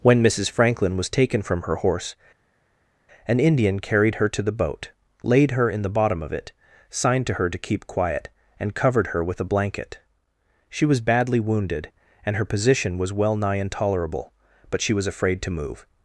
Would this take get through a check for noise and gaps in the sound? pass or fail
pass